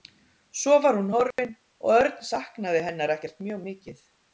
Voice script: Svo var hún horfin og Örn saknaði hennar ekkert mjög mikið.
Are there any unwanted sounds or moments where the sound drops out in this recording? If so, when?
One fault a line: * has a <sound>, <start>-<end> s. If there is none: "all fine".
* has a dropout, 1.3-1.4 s